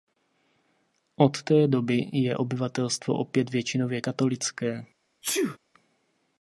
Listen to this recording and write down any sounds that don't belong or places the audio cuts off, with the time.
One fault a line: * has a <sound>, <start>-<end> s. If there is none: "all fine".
* has a sneeze, 5.2-5.6 s